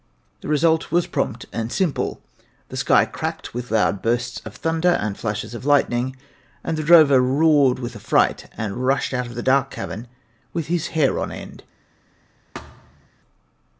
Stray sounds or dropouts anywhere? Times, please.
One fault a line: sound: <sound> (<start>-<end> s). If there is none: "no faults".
sound: thud (12.5-13.1 s)